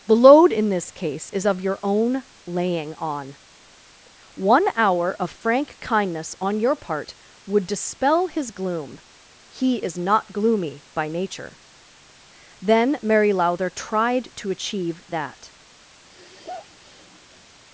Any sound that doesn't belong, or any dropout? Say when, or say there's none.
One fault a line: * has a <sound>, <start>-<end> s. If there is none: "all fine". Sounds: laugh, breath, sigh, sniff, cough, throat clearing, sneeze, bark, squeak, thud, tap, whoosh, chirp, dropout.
* has a sigh, 16.0-17.5 s